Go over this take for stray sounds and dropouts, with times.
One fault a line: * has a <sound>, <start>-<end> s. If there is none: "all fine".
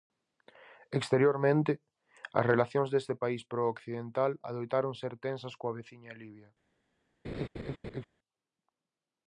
* has a laugh, 7.2-8.0 s